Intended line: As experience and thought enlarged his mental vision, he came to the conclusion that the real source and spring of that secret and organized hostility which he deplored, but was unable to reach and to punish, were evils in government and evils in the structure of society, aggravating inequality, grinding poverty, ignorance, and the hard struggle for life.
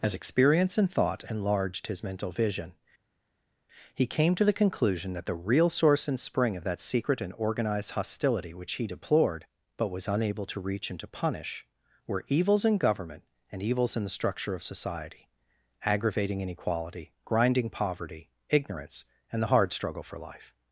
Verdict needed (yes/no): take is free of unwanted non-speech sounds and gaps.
yes